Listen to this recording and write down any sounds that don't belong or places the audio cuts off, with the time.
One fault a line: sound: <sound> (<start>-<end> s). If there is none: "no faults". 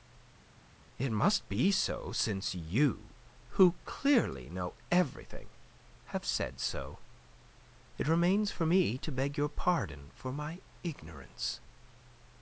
no faults